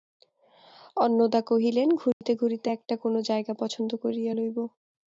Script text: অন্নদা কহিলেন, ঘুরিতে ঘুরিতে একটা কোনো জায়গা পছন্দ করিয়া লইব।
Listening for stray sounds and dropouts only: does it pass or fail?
fail